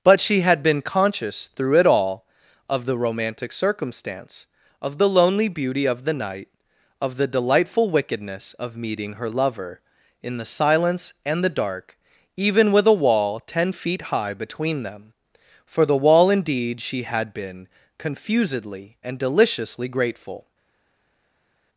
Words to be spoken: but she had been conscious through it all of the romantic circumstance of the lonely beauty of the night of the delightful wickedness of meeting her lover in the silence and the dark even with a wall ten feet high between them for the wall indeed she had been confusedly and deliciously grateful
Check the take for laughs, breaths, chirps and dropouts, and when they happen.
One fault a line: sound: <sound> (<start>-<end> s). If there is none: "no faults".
no faults